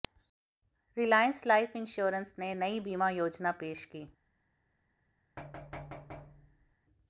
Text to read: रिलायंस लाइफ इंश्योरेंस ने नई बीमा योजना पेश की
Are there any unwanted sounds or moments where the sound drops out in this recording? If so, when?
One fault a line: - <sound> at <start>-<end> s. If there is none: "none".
- thud at 5.4-6.8 s